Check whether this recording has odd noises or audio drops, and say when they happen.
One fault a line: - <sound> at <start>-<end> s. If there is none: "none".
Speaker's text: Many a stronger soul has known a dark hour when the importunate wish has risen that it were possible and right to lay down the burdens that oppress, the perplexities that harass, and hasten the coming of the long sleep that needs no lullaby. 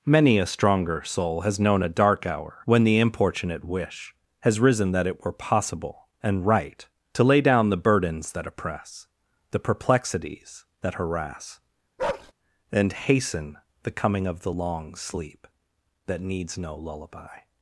- bark at 12.0-12.3 s